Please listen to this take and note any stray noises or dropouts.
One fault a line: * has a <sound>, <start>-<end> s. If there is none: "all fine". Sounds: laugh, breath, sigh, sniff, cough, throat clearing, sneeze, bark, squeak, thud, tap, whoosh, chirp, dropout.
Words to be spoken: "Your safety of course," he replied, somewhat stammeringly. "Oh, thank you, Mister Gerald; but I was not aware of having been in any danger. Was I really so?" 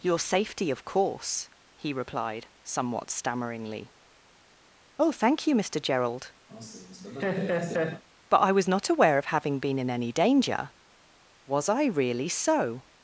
* has a laugh, 6.5-8.0 s